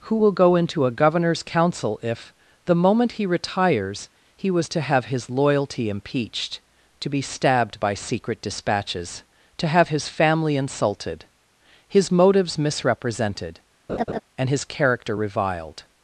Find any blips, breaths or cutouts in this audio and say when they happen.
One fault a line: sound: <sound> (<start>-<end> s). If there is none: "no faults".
sound: laugh (13.9-14.2 s)